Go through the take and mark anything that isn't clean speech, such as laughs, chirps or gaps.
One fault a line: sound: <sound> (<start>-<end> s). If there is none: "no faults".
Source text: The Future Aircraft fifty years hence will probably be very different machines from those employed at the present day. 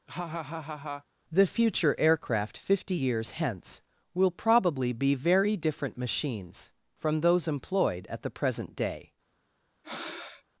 sound: laugh (0.1-1.0 s)
sound: breath (9.8-10.4 s)